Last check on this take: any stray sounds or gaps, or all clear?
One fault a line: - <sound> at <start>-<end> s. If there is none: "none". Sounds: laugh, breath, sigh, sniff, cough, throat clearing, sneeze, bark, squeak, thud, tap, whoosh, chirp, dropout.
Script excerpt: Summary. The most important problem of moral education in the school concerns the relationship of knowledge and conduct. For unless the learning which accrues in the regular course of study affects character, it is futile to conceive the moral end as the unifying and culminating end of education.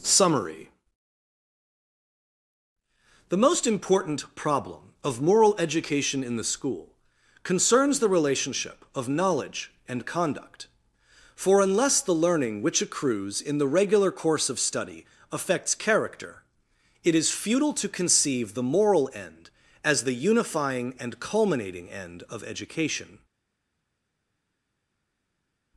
none